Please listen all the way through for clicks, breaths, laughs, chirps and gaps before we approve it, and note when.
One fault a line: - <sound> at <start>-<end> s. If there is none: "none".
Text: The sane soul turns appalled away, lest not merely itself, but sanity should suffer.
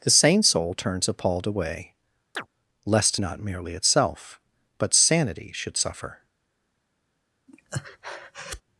- chirp at 2.4-2.5 s
- breath at 7.5-8.6 s